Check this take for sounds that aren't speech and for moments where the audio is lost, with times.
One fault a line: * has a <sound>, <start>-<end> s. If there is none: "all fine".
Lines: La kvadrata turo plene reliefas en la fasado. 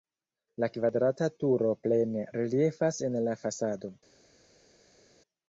all fine